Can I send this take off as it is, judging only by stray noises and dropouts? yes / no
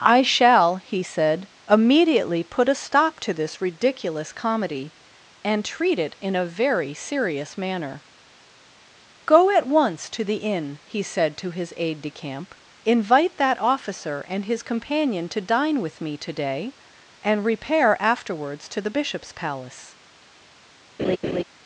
no